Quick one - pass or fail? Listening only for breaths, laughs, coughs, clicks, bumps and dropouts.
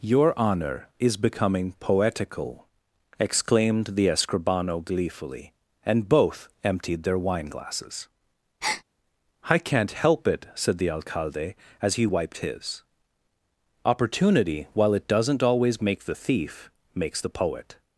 fail